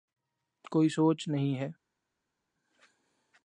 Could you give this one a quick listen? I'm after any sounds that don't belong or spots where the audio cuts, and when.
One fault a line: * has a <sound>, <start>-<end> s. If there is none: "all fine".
all fine